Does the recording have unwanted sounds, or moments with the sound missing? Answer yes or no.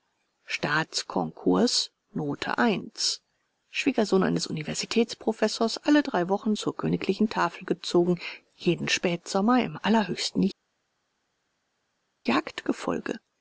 no